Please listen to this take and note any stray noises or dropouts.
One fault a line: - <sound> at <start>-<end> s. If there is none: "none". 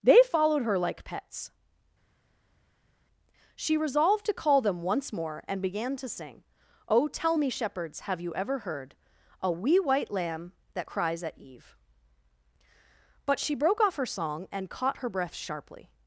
none